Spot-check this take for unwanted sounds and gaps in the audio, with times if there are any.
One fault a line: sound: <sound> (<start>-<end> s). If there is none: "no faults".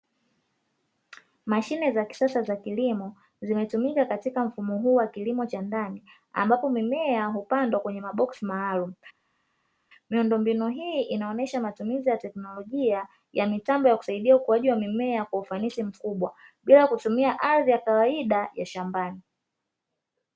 no faults